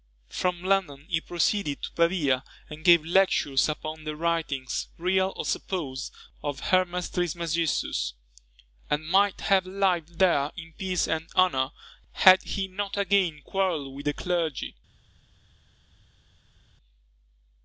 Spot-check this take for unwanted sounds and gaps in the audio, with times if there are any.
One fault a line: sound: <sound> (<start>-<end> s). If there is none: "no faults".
no faults